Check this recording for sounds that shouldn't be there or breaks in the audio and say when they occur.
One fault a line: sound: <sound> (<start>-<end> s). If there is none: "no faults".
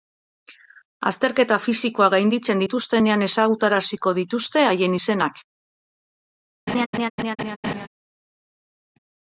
sound: laugh (6.7-7.9 s)